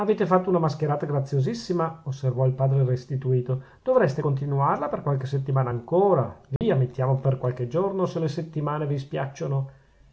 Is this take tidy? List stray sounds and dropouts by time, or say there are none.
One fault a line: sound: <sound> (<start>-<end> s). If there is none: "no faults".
sound: dropout (6.6-6.6 s)